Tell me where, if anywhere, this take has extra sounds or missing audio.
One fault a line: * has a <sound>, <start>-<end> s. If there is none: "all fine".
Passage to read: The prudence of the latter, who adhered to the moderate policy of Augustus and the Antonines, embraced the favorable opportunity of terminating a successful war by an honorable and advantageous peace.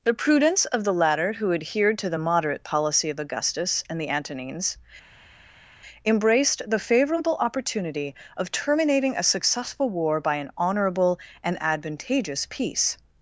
all fine